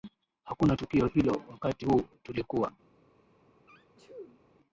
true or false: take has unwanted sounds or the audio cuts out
true